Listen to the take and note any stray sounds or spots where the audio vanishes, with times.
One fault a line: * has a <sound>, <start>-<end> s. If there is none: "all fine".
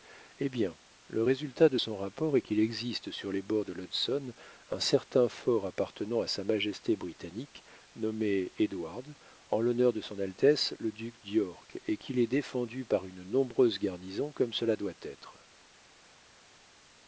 all fine